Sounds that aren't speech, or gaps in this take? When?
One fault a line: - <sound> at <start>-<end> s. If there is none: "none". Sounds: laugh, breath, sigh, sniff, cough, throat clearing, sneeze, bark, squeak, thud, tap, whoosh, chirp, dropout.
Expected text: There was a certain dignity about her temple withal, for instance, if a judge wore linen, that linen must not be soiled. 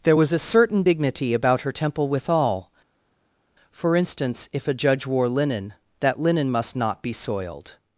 none